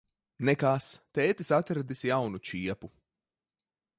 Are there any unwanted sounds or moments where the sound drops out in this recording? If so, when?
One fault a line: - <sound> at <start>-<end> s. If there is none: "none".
none